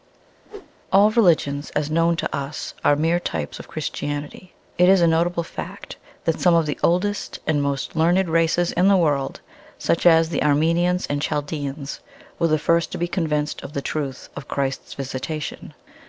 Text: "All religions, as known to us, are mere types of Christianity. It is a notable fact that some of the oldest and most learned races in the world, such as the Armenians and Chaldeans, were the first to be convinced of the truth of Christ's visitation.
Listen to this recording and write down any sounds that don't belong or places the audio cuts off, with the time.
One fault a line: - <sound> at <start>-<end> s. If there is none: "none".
- whoosh at 0.4-0.7 s